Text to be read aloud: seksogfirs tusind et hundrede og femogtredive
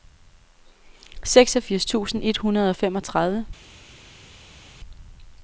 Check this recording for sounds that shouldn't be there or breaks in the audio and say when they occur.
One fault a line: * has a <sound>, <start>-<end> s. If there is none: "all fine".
all fine